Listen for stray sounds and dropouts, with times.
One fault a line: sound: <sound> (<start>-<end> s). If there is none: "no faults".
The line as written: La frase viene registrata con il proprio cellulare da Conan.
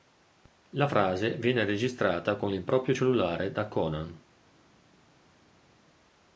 no faults